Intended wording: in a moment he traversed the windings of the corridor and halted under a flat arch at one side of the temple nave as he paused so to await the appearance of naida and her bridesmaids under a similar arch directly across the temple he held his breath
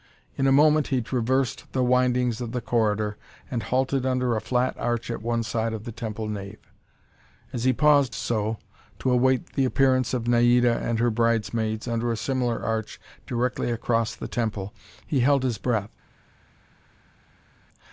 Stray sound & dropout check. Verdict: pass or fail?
pass